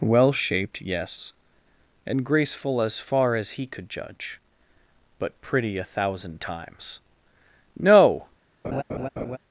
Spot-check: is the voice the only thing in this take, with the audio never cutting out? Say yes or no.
no